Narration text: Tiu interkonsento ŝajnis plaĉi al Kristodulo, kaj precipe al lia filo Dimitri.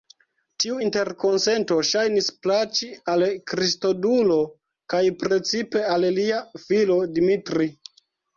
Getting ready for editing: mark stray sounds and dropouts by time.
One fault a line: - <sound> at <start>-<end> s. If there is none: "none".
none